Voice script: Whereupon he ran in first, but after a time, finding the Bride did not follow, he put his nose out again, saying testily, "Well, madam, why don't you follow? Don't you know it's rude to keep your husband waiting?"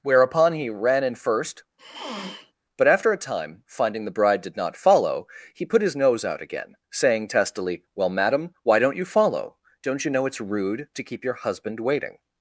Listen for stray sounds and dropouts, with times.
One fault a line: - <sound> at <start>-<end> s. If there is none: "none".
- sniff at 1.8-2.5 s